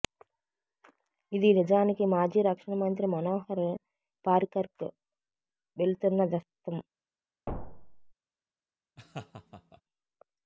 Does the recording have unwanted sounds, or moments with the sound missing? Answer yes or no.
yes